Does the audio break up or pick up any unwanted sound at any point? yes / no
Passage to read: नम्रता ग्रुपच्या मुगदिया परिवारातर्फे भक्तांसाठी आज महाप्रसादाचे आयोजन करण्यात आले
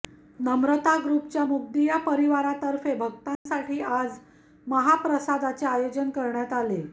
yes